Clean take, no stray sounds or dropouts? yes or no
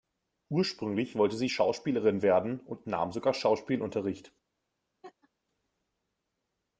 no